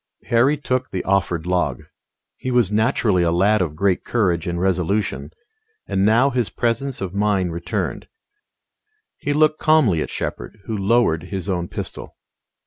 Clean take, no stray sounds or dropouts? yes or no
yes